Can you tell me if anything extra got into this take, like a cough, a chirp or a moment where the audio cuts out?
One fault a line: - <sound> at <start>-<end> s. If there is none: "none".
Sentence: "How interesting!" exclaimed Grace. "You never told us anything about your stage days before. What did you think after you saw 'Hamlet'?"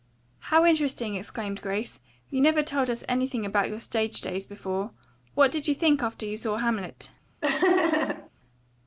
- laugh at 7.4-8.3 s